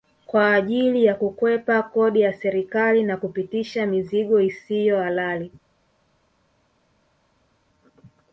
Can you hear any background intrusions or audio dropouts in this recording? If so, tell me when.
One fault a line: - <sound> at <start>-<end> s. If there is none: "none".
none